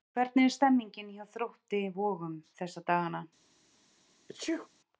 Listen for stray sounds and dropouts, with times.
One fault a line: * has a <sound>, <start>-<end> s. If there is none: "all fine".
* has a sneeze, 4.3-4.7 s